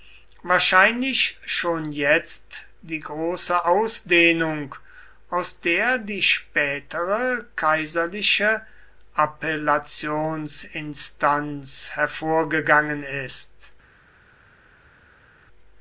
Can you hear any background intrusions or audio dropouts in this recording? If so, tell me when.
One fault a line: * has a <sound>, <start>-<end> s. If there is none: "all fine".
all fine